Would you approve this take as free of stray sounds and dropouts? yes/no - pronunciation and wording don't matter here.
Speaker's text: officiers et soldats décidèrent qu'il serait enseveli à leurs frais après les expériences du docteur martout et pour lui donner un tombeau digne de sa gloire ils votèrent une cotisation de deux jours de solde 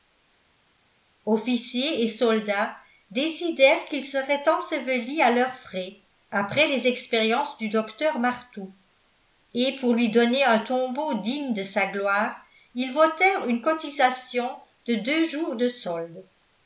yes